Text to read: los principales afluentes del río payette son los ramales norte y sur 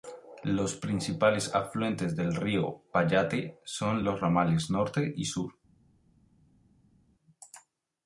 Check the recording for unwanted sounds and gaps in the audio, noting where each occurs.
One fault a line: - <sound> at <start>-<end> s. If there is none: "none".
none